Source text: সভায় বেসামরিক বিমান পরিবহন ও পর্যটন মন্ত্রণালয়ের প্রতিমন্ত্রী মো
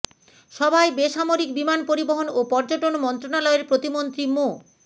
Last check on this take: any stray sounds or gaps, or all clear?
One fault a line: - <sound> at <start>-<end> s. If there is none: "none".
none